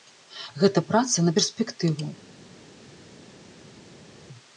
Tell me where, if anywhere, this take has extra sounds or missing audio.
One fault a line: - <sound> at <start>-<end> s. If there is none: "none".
none